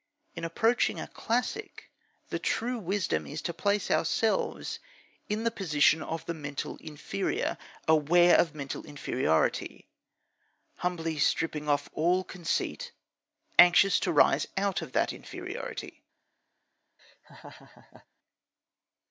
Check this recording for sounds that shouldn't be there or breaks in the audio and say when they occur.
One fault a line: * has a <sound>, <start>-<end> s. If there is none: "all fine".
* has a laugh, 17.0-18.1 s